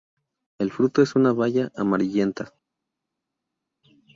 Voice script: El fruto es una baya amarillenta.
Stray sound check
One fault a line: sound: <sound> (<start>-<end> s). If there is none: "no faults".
no faults